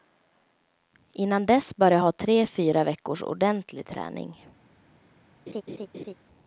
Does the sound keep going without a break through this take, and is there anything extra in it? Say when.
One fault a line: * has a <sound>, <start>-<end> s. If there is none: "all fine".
* has a laugh, 5.5-6.1 s